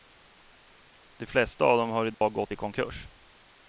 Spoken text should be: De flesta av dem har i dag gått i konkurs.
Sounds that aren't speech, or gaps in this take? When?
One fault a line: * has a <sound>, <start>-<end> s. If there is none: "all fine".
* has a dropout, 2.1-2.2 s